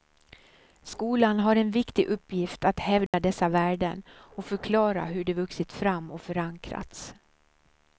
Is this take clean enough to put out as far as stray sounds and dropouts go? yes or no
no